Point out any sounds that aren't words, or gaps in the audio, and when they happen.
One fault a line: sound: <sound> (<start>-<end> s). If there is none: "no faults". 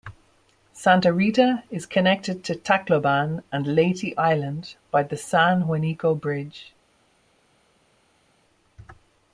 no faults